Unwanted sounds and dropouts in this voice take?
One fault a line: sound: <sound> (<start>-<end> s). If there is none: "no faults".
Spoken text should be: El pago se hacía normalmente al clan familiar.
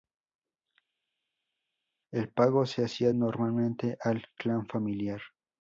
no faults